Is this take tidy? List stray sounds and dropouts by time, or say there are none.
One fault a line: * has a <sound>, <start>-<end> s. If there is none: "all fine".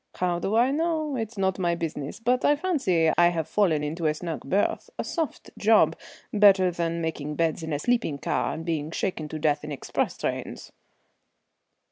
* has a dropout, 3.1-3.2 s